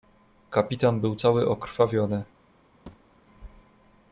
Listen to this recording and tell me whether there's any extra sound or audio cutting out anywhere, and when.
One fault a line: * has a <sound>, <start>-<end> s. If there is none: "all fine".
* has a thud, 2.9-3.2 s